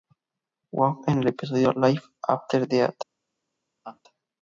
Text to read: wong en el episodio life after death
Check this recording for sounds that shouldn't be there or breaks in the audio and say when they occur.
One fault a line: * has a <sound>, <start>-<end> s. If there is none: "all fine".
* has a laugh, 3.8-4.0 s